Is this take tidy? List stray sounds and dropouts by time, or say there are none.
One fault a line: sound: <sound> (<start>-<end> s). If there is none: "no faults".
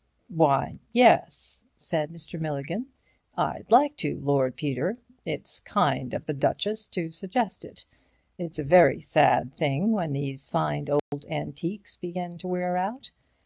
sound: dropout (11.0-11.1 s)